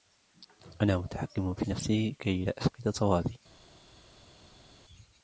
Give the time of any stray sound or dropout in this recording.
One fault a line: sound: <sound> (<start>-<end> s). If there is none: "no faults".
no faults